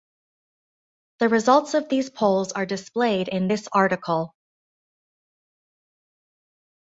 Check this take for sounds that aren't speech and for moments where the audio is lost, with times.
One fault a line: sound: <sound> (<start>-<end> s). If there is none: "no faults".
no faults